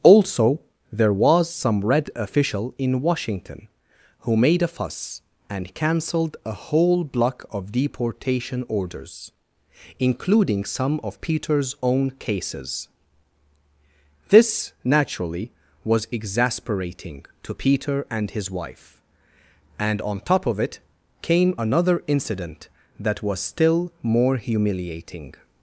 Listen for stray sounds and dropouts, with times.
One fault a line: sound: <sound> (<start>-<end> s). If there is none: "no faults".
no faults